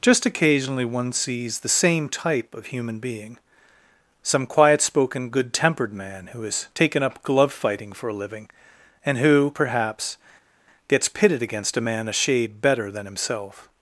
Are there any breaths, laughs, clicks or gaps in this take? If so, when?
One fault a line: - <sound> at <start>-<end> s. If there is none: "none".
none